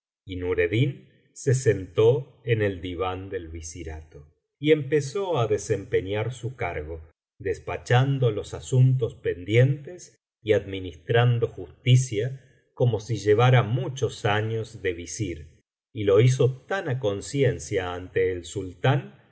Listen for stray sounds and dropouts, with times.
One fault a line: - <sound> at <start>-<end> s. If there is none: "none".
none